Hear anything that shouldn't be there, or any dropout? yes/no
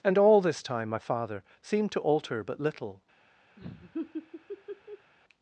yes